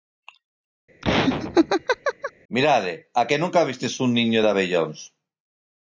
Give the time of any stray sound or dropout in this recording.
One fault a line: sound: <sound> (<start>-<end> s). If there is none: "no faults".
sound: laugh (1.0-2.3 s)